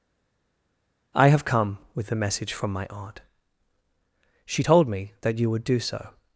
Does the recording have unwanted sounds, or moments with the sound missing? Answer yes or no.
no